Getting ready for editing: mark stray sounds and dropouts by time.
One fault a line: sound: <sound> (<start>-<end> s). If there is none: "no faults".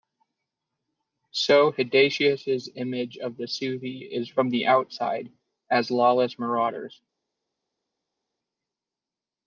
no faults